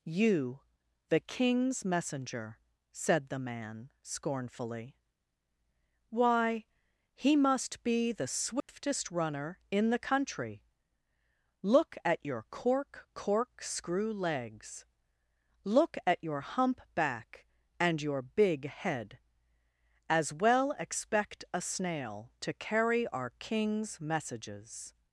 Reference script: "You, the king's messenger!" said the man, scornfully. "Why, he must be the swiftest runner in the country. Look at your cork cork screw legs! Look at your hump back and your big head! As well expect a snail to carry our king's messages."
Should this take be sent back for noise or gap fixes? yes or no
yes